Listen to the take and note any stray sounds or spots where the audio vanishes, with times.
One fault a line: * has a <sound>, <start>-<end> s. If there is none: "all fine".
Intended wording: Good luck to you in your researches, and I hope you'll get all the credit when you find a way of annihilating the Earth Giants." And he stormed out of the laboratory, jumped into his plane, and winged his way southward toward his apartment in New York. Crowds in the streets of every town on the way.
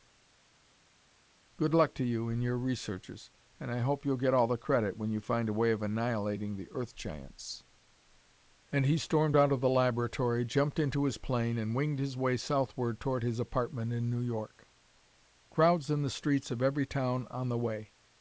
all fine